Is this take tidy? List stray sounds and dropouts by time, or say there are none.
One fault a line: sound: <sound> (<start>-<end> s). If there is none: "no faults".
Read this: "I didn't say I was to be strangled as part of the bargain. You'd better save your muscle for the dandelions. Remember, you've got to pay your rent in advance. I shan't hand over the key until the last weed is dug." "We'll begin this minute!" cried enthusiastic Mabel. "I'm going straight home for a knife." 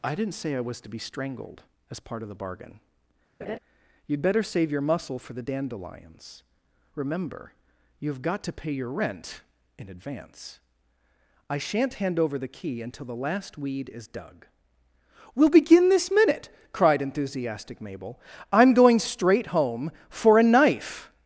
sound: laugh (3.4-3.6 s)